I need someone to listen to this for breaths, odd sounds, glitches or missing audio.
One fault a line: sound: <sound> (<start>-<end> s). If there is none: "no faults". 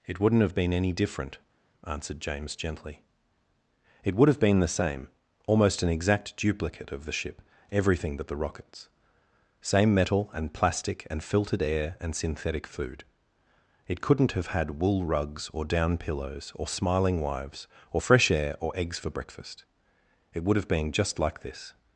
no faults